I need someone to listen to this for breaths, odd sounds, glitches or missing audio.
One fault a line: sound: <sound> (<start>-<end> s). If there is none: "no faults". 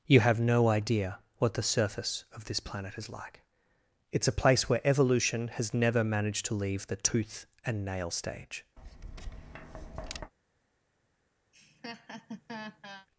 sound: tap (8.8-10.3 s)
sound: laugh (11.5-13.1 s)